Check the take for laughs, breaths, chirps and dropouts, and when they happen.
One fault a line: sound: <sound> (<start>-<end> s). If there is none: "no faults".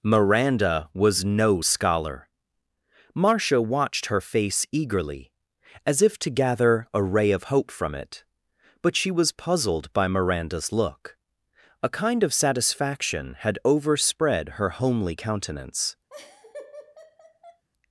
sound: laugh (16.1-17.6 s)